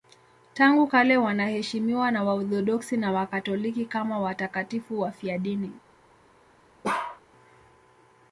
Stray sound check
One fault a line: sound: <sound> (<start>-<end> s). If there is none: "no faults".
sound: bark (6.8-7.2 s)